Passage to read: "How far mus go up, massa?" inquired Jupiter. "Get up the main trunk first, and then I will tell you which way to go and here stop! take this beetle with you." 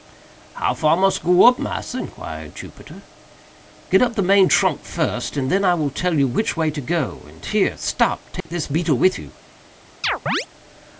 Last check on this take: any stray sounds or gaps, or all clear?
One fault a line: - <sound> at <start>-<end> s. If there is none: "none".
- dropout at 8.4-8.5 s
- chirp at 10.0-10.5 s